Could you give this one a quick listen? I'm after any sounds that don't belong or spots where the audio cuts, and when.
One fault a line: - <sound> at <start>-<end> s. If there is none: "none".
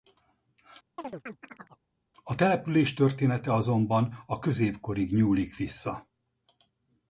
- chirp at 1.0-1.8 s